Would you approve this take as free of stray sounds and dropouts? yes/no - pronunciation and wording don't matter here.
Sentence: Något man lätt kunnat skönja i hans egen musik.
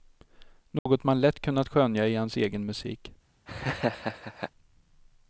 no